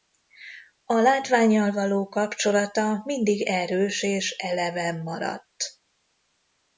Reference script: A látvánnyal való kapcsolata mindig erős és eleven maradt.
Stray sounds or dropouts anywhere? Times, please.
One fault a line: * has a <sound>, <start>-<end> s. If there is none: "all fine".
all fine